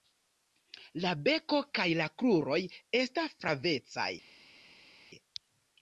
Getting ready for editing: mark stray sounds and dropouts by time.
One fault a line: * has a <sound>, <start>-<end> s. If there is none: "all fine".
all fine